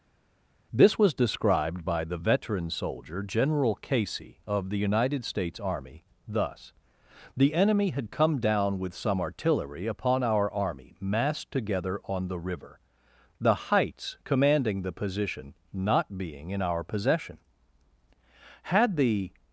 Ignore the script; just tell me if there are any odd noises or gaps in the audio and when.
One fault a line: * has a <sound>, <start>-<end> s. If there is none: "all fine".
all fine